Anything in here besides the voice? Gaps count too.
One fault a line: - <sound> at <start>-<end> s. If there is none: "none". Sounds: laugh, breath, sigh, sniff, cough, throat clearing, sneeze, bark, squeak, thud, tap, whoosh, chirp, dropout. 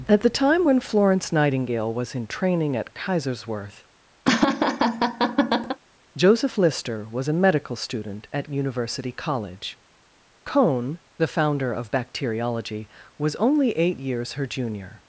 - laugh at 4.2-5.8 s